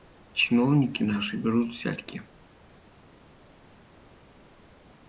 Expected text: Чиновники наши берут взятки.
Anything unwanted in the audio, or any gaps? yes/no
no